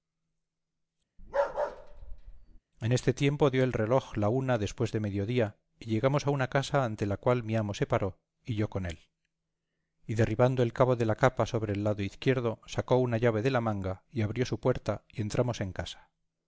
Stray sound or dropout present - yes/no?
yes